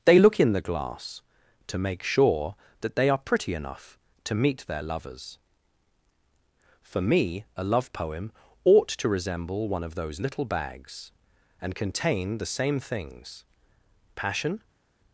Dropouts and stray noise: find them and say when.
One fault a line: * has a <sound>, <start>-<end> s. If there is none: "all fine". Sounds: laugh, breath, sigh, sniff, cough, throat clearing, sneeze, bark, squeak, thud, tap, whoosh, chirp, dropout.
all fine